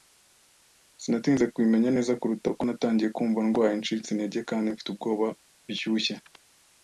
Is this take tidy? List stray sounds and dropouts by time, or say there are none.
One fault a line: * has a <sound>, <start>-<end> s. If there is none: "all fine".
all fine